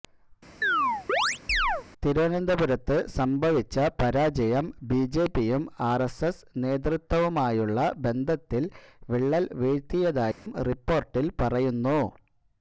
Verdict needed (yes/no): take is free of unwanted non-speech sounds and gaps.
no